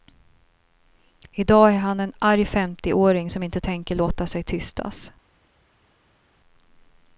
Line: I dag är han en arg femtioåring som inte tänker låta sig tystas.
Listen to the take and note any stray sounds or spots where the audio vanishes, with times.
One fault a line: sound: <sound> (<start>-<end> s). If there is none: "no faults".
no faults